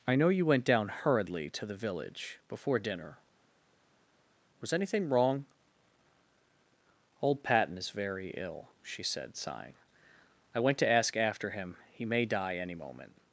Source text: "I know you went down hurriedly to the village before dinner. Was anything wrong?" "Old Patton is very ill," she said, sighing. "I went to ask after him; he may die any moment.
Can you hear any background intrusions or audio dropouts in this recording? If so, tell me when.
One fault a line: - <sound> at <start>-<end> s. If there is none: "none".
none